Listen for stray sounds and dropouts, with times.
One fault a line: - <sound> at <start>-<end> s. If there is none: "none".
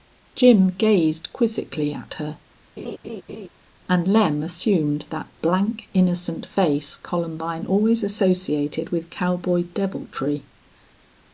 - laugh at 2.8-3.5 s